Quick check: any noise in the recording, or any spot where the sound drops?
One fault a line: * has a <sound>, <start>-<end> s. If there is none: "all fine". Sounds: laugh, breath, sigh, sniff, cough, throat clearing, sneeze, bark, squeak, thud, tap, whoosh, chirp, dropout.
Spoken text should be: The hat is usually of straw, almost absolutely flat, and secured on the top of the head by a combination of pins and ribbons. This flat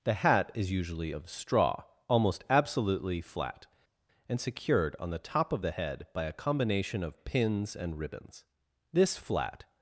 all fine